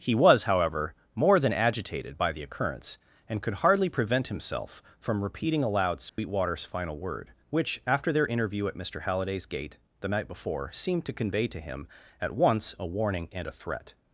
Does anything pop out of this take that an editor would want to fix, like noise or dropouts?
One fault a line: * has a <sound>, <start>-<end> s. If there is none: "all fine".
* has a dropout, 6.1-6.2 s